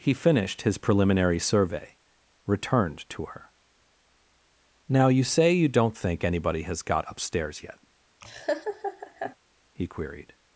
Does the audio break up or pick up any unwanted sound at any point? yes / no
yes